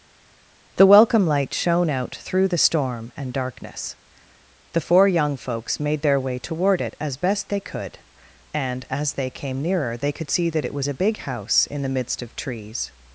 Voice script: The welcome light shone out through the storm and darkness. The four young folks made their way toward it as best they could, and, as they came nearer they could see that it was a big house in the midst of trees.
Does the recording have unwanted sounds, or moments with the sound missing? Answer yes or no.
no